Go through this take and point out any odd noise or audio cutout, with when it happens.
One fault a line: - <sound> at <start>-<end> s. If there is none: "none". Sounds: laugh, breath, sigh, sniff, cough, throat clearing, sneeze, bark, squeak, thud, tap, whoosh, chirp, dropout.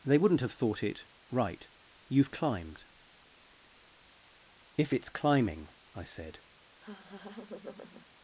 - laugh at 6.8-8.1 s